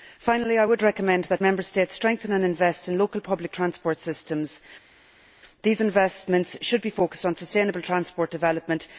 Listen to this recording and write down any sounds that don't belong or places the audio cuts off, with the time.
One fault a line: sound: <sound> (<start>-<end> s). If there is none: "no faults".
no faults